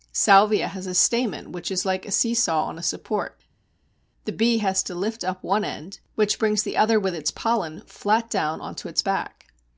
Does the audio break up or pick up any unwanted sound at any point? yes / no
no